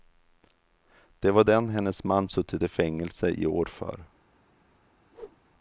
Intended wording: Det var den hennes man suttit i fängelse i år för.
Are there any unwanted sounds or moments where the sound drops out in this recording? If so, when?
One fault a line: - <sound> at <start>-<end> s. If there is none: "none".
- whoosh at 5.1-5.4 s